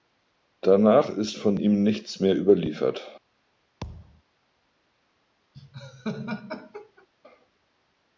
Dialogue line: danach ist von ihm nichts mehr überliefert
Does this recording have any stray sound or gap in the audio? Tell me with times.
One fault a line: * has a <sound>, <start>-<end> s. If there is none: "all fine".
* has a thud, 3.8-4.2 s
* has a laugh, 5.5-7.1 s